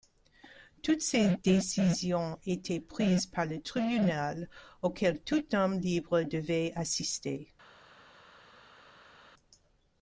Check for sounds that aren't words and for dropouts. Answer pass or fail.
pass